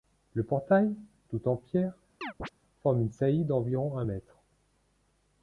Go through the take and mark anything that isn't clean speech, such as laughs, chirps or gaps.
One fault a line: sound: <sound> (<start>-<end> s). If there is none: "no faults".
sound: chirp (2.2-2.5 s)